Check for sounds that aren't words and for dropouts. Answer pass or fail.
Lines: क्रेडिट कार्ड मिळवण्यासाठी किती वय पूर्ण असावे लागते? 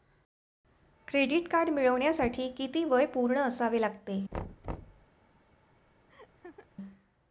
fail